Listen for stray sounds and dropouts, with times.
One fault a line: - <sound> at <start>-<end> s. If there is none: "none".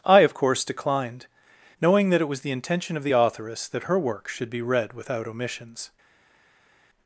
none